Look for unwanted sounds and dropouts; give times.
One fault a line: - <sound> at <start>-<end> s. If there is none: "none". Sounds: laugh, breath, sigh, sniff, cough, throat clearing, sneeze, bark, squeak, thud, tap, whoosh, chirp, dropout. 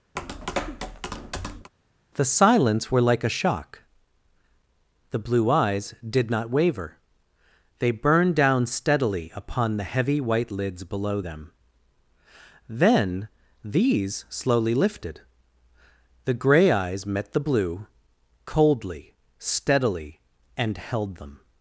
- tap at 0.2-1.7 s